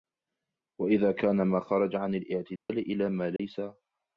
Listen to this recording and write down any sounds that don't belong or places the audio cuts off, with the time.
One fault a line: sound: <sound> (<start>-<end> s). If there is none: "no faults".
sound: dropout (2.6-2.7 s)
sound: dropout (3.4-3.4 s)